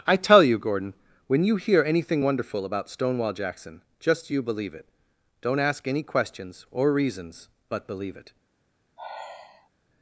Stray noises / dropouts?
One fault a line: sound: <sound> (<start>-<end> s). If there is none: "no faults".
sound: sigh (9.0-9.7 s)